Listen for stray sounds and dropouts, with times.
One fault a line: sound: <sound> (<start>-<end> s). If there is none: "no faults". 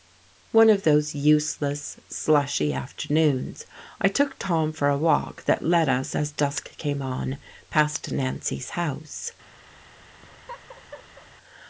sound: laugh (10.2-11.3 s)